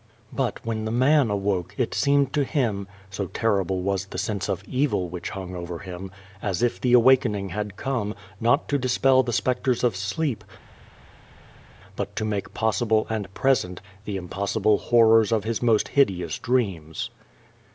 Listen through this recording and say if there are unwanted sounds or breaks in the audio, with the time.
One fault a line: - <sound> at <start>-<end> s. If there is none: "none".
none